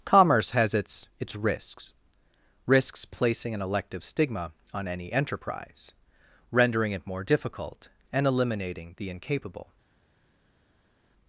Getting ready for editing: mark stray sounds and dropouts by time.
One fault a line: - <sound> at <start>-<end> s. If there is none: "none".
none